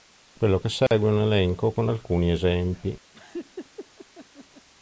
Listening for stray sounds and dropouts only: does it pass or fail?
fail